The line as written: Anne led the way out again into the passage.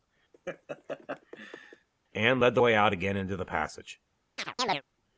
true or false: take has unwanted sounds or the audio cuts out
true